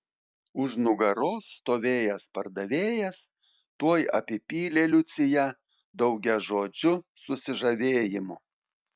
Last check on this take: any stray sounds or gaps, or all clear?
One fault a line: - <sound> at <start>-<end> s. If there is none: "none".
none